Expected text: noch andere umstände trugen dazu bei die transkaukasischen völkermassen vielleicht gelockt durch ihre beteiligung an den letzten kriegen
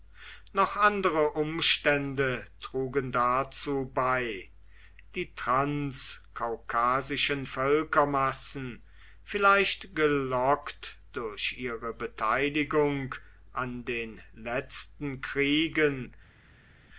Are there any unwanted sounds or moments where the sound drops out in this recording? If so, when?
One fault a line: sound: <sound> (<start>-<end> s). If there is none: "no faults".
no faults